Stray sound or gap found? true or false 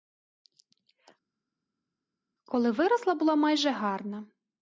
false